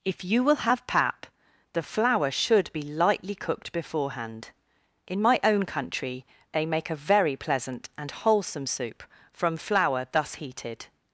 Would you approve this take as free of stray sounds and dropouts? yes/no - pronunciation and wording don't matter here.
yes